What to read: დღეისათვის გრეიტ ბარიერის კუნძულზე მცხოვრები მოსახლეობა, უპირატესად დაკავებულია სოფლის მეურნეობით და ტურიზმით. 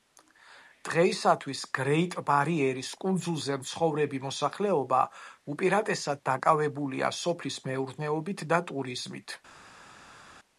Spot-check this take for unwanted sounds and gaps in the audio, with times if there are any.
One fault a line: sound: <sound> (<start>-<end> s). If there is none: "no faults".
no faults